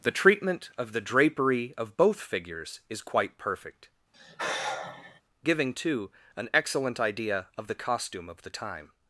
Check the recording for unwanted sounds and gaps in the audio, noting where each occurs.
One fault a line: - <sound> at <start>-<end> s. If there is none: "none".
- sigh at 4.1-5.2 s